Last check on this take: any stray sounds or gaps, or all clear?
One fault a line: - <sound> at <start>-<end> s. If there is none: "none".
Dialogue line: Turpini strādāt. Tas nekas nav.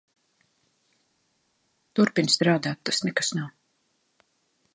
none